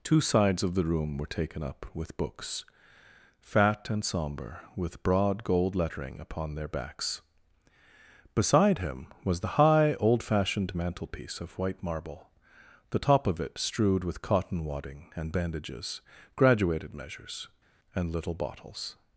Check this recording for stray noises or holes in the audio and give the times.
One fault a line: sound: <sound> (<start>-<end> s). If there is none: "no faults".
no faults